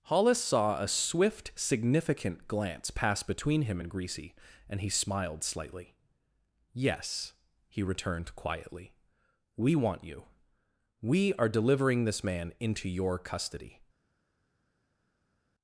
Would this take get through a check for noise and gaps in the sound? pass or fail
pass